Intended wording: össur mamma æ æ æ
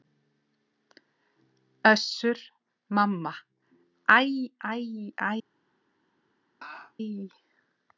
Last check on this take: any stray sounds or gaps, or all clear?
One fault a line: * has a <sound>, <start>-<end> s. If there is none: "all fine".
* has a laugh, 6.6-6.9 s